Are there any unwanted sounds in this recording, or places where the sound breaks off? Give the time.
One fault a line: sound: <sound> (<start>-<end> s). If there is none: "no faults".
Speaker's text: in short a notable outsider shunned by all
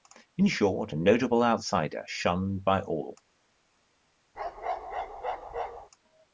sound: bark (4.3-5.9 s)